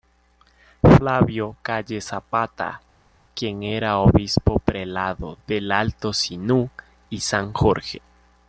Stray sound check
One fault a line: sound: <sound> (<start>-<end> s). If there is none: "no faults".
no faults